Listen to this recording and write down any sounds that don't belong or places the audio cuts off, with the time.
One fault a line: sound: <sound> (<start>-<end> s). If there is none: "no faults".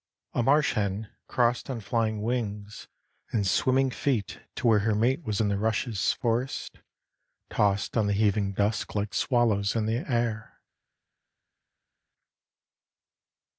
no faults